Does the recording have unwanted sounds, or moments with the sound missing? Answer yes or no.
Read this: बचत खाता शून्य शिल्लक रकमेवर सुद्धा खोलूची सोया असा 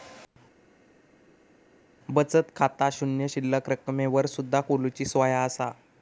no